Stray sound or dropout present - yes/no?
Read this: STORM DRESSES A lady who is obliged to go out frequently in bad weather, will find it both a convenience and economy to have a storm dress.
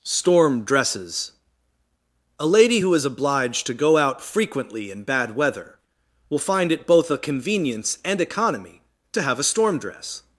no